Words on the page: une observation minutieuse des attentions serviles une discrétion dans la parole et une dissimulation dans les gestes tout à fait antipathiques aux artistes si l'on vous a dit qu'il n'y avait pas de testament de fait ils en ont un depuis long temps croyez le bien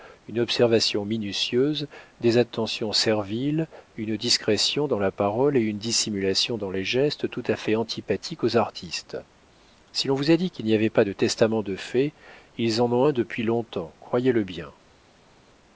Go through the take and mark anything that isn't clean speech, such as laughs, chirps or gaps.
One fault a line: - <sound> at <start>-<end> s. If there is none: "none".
none